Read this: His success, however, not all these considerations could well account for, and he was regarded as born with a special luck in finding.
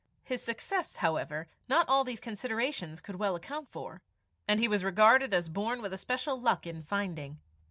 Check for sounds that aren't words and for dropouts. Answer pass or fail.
pass